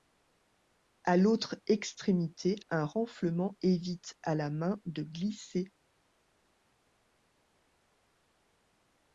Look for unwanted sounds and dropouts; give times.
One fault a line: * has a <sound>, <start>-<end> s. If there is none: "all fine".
all fine